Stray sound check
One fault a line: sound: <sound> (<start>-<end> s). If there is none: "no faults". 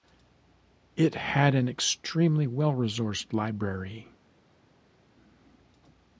no faults